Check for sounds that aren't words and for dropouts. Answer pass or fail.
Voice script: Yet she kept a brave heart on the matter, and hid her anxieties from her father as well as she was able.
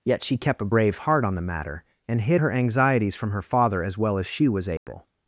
fail